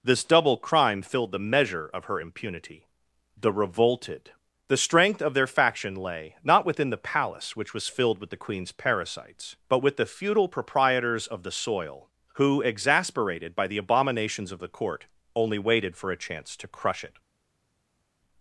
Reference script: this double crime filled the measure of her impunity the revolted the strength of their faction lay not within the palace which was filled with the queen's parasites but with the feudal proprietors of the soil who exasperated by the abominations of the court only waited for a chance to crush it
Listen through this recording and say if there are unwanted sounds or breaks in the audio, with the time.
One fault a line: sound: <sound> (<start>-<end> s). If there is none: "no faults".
no faults